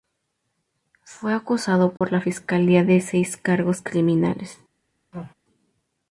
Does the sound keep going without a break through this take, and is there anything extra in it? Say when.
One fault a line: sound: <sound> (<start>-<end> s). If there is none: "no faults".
sound: dropout (2.0-2.0 s)
sound: sneeze (5.1-5.3 s)